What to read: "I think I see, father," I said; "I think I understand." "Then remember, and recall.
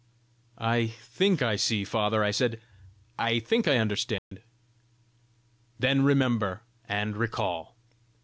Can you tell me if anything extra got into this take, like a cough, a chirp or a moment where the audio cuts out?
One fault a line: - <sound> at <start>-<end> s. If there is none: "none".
- dropout at 4.2-4.3 s